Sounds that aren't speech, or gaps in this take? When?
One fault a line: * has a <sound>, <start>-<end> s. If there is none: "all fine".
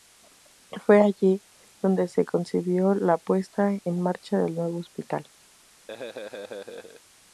* has a laugh, 5.9-7.0 s